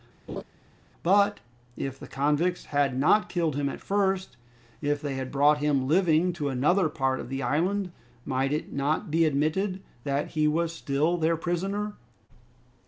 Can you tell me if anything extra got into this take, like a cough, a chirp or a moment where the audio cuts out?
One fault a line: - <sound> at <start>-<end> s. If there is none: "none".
- laugh at 0.3-0.4 s